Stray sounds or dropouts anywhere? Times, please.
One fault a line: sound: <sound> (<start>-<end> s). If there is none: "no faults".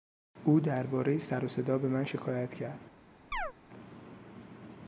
sound: chirp (3.3-3.5 s)